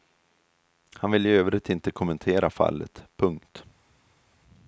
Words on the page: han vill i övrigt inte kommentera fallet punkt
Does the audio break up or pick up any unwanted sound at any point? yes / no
no